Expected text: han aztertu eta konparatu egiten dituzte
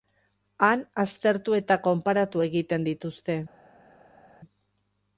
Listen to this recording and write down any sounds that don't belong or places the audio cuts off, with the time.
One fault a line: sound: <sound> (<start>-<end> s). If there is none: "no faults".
no faults